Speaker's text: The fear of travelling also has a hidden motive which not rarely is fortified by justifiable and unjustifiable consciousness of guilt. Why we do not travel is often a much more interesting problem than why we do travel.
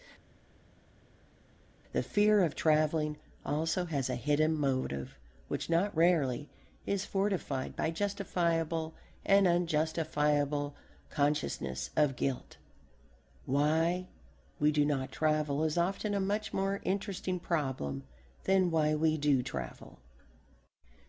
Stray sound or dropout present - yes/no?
no